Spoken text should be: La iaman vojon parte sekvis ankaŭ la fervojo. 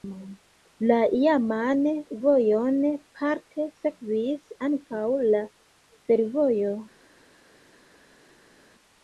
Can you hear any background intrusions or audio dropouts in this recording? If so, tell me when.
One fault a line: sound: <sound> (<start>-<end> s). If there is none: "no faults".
no faults